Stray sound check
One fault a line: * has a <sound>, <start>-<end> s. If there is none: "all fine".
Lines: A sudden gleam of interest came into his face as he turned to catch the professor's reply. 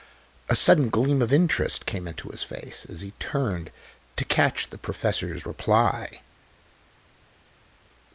all fine